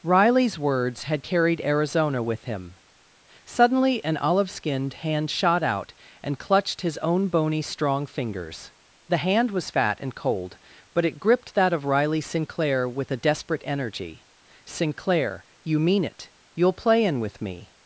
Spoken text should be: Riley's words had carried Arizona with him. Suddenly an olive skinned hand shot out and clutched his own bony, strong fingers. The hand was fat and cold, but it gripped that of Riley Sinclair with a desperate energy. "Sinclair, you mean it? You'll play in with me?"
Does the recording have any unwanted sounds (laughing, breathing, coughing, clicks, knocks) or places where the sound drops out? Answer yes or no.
no